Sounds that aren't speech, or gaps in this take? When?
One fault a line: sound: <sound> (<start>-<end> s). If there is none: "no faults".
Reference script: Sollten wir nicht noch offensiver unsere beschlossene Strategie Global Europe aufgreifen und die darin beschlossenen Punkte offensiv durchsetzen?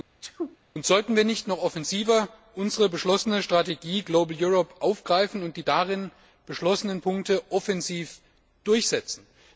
sound: sneeze (0.2-0.6 s)